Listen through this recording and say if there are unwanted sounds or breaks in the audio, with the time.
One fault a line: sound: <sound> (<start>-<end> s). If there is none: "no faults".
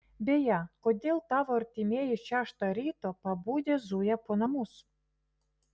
no faults